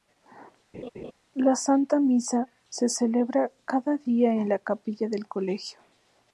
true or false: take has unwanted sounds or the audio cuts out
true